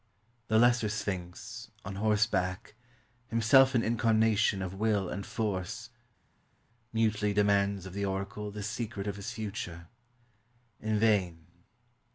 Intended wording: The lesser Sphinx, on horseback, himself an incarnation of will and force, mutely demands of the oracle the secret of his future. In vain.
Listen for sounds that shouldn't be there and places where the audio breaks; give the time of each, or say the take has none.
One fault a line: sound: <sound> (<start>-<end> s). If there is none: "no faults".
no faults